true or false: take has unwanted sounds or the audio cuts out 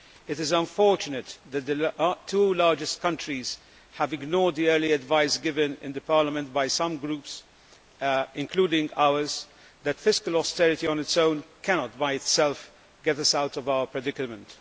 false